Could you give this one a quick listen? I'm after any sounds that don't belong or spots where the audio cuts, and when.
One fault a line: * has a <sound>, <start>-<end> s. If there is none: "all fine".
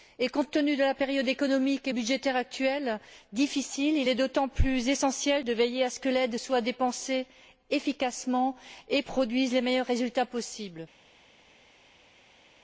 all fine